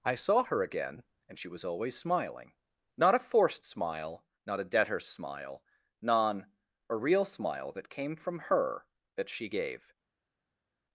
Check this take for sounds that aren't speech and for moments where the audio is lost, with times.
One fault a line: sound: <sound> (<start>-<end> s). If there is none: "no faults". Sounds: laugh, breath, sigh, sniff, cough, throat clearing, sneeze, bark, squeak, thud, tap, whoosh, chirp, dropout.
no faults